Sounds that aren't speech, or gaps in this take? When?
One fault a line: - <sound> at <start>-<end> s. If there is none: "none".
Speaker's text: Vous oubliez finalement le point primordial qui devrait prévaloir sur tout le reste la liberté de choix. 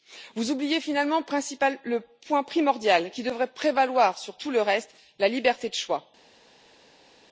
none